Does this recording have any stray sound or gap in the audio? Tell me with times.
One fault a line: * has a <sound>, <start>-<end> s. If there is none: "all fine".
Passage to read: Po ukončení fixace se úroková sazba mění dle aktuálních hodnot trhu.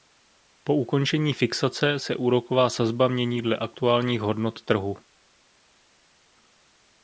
all fine